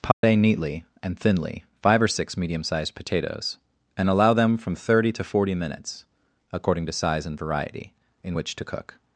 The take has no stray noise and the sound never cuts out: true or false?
false